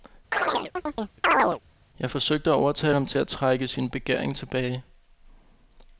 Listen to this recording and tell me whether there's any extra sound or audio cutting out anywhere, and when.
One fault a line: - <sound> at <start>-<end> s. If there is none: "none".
- chirp at 0.3-1.6 s